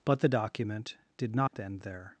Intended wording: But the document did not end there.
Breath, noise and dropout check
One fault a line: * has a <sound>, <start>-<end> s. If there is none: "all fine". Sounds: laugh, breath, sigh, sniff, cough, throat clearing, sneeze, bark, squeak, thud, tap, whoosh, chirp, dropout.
* has a dropout, 1.5-1.5 s